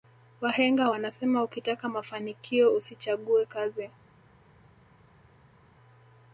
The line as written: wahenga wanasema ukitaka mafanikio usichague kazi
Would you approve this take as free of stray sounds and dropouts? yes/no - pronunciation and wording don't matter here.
yes